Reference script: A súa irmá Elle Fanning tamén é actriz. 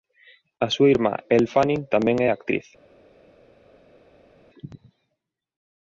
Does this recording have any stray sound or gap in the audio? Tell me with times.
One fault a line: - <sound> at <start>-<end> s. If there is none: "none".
none